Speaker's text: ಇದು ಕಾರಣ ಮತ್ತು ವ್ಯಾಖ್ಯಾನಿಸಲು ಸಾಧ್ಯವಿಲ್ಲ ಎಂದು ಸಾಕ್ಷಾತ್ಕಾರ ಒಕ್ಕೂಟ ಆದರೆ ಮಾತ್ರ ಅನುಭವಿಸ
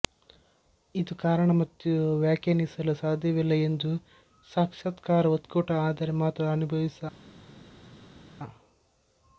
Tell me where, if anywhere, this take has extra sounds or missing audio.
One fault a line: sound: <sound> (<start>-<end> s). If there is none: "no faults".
no faults